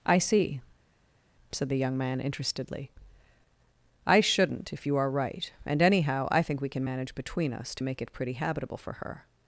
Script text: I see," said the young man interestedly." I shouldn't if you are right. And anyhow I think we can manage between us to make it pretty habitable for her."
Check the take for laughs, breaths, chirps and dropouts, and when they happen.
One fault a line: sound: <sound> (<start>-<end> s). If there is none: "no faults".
no faults